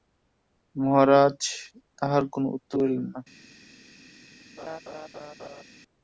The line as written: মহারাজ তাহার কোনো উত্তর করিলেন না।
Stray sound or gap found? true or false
true